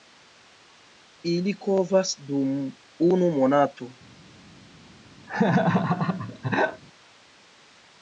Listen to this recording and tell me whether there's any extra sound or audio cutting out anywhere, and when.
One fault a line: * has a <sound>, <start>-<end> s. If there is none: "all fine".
* has a laugh, 5.3-6.8 s